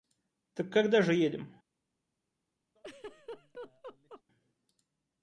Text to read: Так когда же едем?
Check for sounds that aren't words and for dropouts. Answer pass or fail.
fail